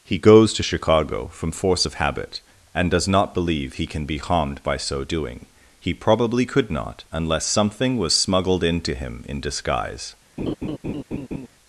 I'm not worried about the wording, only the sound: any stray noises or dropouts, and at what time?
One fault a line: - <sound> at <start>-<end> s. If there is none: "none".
- laugh at 10.4-11.5 s